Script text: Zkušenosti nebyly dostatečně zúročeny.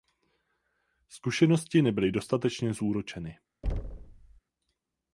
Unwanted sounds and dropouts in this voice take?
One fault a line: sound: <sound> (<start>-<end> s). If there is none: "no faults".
sound: thud (3.6-4.4 s)